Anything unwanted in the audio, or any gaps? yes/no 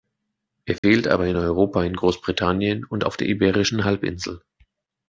yes